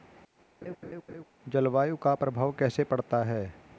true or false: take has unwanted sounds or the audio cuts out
true